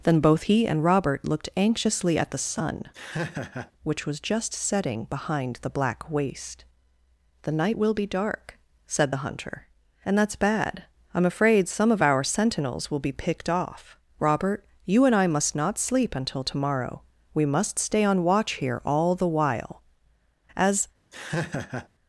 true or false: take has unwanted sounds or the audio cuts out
true